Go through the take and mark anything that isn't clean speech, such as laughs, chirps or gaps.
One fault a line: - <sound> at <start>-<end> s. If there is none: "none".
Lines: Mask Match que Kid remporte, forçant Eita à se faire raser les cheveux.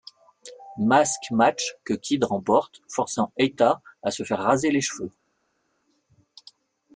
none